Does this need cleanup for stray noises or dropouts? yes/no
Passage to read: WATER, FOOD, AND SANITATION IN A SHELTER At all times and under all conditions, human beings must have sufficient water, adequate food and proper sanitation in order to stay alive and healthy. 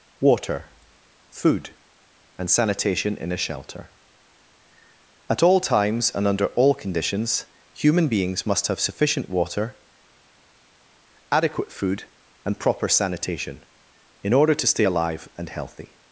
no